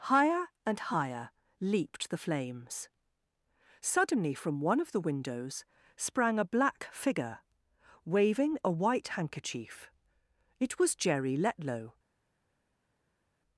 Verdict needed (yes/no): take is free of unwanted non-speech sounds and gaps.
yes